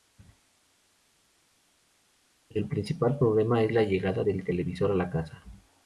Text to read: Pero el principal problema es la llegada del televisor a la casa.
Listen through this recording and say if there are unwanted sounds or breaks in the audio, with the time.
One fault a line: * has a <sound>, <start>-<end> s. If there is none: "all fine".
all fine